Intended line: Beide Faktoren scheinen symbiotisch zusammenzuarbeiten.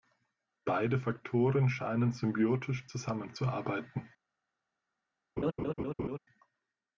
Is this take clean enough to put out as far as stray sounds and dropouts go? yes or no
no